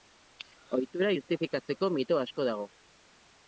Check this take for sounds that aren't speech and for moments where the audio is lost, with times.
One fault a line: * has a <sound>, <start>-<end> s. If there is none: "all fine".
all fine